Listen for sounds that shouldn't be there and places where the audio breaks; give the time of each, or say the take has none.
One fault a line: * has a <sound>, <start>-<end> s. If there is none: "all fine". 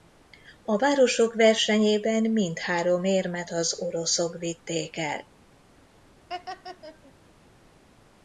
* has a laugh, 6.3-7.1 s